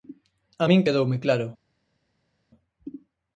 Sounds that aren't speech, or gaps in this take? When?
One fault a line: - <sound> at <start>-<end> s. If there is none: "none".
none